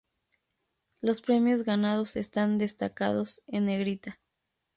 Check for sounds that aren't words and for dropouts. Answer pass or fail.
pass